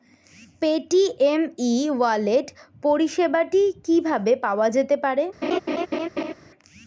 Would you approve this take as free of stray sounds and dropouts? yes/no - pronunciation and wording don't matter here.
no